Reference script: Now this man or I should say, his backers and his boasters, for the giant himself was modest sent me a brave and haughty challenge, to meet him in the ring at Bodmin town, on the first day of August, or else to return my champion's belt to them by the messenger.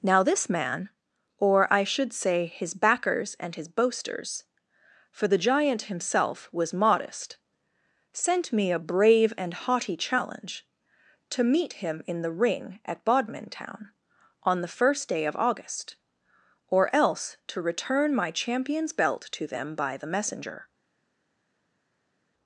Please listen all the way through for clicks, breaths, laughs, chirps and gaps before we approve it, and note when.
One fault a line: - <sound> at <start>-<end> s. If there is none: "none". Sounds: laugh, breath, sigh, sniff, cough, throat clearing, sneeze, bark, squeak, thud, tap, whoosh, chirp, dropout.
none